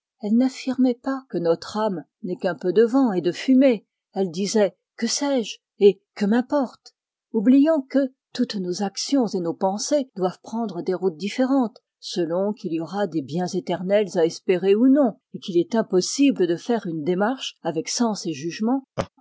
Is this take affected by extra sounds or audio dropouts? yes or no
yes